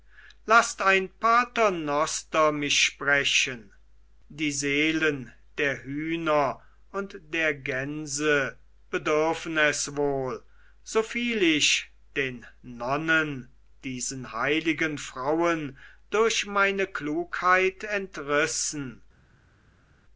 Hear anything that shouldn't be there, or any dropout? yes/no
no